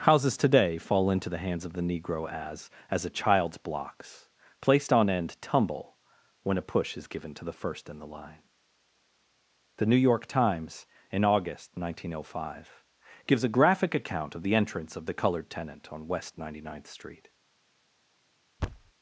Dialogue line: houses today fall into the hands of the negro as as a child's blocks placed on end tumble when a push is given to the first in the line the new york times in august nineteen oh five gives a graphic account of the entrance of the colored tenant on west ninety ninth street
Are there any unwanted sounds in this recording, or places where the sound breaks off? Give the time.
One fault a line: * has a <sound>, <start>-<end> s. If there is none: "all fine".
* has a thud, 18.6-18.9 s